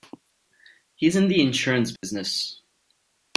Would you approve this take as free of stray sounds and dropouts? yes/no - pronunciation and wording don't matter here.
no